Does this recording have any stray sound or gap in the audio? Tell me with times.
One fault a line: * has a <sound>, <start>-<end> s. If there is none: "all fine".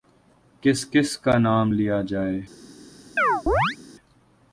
* has a chirp, 3.2-3.8 s